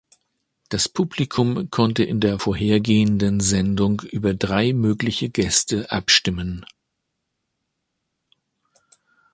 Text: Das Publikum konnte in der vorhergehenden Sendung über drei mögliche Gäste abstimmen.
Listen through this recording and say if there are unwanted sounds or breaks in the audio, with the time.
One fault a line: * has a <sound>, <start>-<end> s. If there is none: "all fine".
all fine